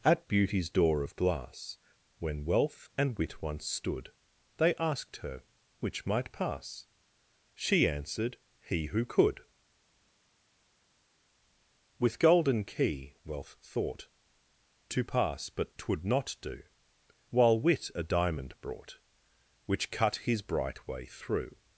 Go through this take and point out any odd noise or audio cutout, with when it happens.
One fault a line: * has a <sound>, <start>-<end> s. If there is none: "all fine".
all fine